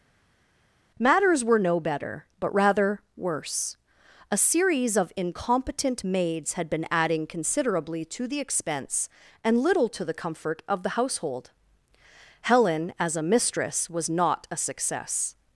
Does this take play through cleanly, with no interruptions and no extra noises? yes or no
yes